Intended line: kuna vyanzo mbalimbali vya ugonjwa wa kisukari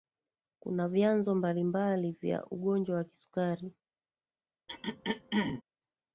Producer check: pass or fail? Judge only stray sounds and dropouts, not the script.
fail